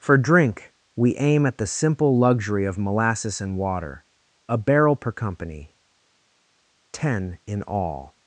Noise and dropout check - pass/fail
pass